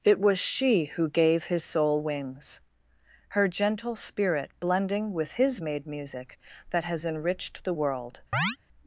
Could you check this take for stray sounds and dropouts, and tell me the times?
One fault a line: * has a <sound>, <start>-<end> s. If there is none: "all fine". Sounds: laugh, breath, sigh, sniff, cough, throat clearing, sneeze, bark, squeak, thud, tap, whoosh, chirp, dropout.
* has a chirp, 8.3-8.6 s